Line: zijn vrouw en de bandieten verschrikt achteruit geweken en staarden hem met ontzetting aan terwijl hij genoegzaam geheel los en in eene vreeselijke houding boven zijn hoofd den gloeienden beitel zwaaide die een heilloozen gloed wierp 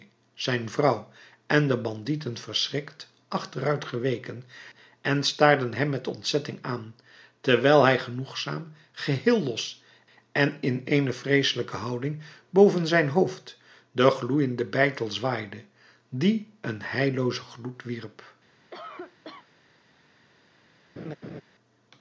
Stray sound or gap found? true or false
true